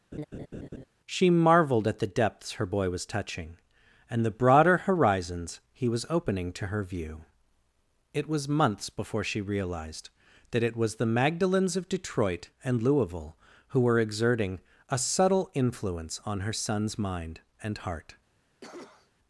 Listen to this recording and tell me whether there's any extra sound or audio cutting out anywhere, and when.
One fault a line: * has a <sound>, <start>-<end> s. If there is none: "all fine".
* has a laugh, 0.1-0.8 s
* has a cough, 18.6-19.1 s